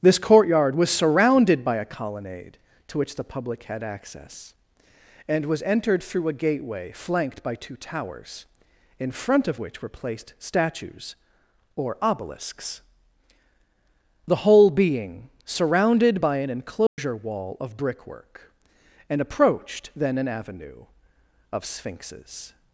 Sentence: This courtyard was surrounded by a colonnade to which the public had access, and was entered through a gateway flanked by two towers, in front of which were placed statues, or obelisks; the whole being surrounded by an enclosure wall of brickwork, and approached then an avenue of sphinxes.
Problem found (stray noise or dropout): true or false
true